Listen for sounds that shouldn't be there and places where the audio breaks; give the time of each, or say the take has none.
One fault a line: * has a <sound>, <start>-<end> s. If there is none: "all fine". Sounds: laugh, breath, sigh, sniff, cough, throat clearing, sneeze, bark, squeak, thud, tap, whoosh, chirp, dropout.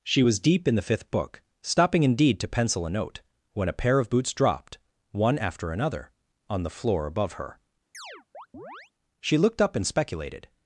* has a chirp, 7.9-8.9 s